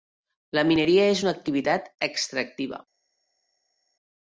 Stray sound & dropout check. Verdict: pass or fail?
pass